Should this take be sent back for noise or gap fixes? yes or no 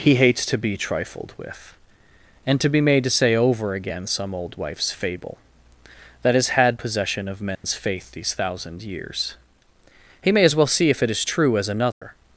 yes